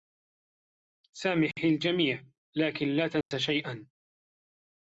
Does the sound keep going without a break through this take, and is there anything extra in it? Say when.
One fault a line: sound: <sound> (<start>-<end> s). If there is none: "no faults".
sound: dropout (3.2-3.3 s)